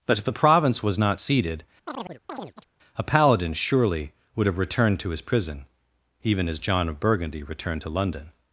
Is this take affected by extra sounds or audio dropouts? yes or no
yes